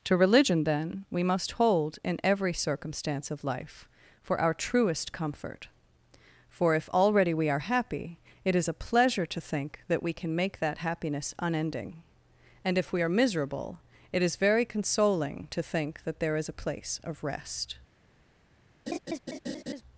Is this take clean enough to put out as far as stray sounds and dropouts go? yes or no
no